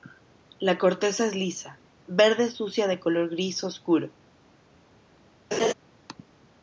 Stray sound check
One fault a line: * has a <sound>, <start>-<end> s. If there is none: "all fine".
* has a laugh, 5.5-5.7 s